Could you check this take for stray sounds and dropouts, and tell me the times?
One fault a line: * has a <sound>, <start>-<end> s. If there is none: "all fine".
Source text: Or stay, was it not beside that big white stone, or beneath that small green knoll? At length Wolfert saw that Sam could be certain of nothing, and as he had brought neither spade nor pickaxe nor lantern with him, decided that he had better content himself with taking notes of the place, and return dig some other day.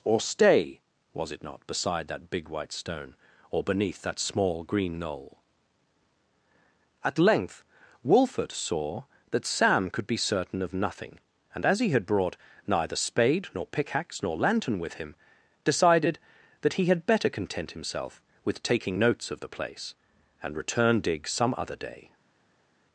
all fine